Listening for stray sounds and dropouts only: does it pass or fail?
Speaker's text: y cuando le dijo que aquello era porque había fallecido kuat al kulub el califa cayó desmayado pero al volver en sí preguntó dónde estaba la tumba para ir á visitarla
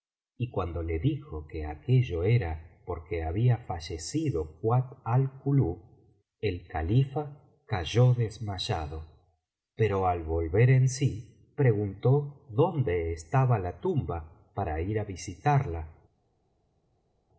pass